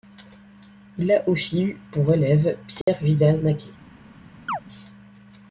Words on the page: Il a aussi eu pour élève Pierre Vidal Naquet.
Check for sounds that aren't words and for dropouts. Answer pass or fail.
fail